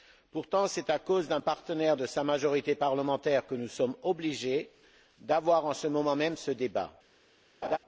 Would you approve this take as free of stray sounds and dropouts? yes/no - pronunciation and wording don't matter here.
no